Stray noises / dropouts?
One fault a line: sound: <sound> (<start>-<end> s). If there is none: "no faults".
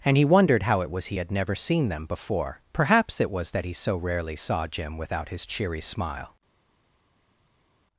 no faults